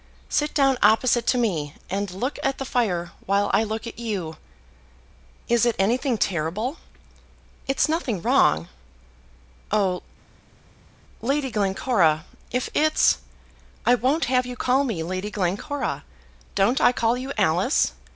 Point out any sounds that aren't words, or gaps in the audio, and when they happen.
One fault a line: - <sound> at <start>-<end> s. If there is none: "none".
none